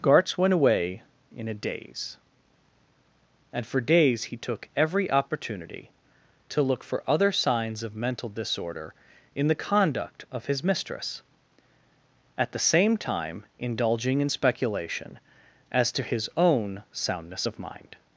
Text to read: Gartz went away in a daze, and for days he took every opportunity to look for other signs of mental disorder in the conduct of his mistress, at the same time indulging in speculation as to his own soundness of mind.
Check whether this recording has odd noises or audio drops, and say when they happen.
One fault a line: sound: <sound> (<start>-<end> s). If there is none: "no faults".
no faults